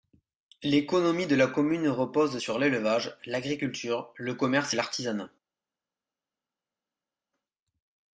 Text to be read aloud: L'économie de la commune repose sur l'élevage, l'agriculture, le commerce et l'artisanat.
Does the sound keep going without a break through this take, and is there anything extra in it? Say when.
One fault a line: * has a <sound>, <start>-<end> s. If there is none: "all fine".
all fine